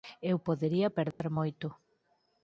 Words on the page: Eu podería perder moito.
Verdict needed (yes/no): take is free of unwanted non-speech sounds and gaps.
no